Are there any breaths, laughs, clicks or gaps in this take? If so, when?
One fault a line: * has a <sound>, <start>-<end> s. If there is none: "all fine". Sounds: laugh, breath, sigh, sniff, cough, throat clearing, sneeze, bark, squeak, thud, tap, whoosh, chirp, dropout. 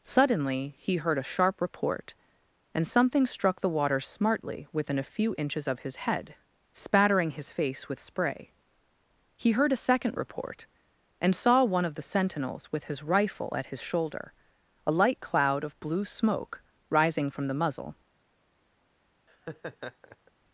* has a laugh, 19.3-20.3 s